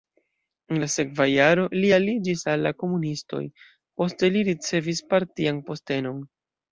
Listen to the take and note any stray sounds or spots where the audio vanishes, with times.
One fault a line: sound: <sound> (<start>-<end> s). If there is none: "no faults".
no faults